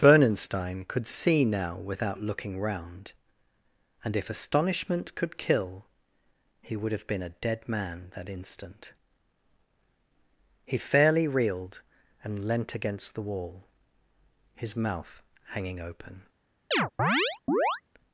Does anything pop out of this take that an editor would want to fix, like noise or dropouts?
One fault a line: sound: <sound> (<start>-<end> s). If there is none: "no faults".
sound: chirp (16.7-17.8 s)